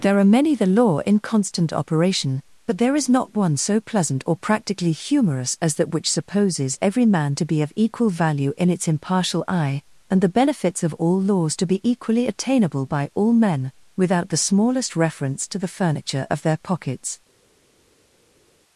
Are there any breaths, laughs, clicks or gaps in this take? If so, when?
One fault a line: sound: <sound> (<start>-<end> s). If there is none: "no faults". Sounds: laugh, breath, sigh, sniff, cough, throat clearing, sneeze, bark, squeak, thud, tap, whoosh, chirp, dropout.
no faults